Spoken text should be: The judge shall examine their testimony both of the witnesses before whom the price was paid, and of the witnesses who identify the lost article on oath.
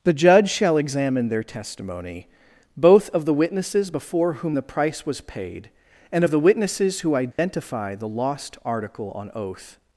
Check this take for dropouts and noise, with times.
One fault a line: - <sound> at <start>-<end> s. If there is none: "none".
- dropout at 7.3-7.4 s